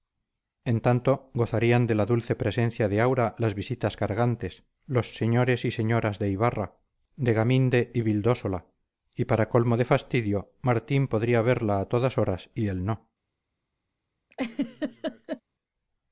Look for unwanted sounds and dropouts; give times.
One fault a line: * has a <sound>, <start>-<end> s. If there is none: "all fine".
* has a laugh, 14.3-15.4 s